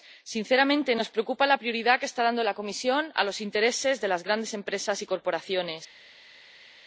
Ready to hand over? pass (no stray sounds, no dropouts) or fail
pass